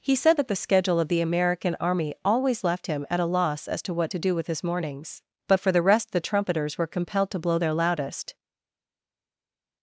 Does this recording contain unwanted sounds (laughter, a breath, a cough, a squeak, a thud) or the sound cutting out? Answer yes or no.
no